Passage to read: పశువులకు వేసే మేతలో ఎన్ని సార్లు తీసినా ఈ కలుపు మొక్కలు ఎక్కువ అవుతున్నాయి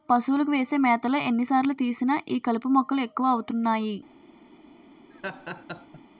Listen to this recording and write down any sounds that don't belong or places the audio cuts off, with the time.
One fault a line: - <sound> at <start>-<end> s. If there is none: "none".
- laugh at 5.1-6.0 s